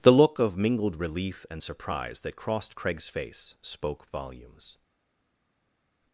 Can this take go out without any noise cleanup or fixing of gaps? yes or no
yes